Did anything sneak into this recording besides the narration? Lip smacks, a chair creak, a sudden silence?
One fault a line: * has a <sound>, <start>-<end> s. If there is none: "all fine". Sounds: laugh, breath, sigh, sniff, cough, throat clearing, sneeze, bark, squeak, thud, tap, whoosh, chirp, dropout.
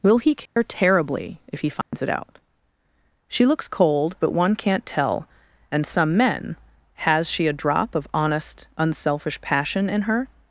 * has a dropout, 0.5-0.6 s
* has a dropout, 1.8-1.9 s